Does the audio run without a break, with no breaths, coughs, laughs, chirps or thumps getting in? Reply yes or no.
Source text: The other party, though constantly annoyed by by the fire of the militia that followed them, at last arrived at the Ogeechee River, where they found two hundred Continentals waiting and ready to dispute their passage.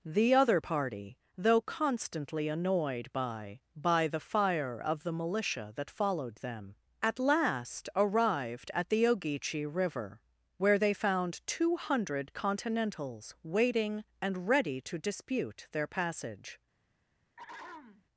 no